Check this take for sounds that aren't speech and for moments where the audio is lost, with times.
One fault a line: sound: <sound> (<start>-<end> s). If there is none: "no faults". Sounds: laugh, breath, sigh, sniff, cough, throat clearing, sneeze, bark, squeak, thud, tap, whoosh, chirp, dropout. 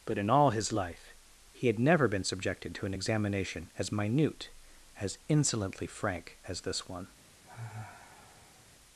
sound: sigh (7.4-8.7 s)